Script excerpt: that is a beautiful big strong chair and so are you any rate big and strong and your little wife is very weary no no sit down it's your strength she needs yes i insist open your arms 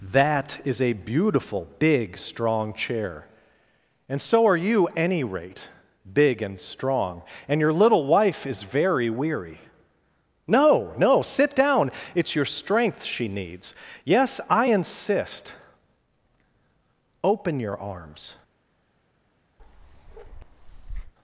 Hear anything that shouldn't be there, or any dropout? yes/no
yes